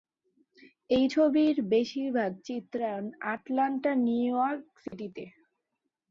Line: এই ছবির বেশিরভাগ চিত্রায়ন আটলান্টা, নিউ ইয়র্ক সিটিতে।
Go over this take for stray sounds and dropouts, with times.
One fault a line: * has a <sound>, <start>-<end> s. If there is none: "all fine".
* has a dropout, 4.9-4.9 s